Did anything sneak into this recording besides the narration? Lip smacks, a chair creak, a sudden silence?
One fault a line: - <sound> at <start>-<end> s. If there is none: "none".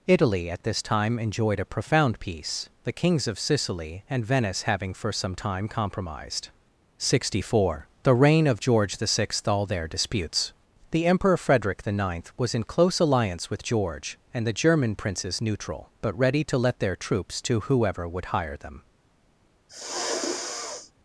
- sniff at 19.7-20.9 s